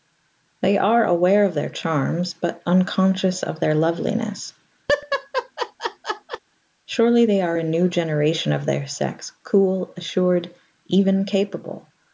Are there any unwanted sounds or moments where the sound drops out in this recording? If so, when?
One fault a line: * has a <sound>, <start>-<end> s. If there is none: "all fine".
* has a laugh, 4.9-6.4 s